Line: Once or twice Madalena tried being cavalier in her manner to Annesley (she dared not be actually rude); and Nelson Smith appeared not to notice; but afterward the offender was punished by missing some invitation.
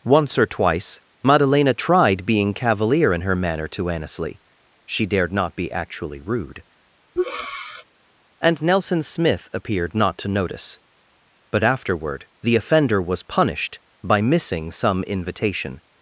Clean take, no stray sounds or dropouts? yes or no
no